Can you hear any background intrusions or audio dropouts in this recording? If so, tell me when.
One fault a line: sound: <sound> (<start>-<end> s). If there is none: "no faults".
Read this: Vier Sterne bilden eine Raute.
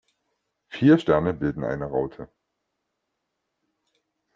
no faults